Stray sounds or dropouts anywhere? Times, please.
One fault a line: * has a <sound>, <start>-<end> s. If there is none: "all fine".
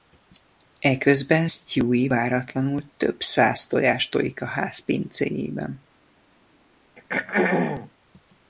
* has a throat clearing, 7.0-7.9 s